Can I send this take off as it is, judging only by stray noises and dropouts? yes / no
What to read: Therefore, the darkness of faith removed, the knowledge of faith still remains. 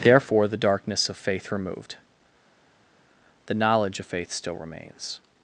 yes